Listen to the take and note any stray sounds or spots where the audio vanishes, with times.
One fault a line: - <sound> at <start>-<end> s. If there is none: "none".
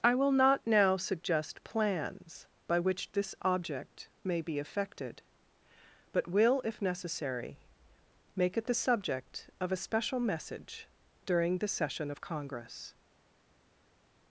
none